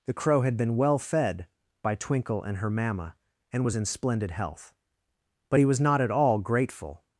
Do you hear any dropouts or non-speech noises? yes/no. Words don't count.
no